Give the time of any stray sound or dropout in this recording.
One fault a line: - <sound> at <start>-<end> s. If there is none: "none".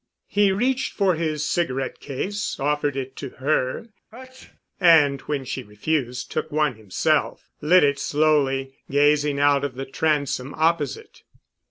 - sneeze at 4.1-4.6 s